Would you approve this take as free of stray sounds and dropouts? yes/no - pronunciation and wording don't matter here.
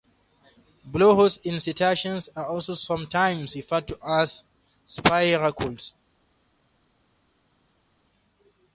yes